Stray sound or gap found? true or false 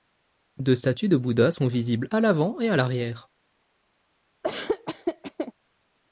true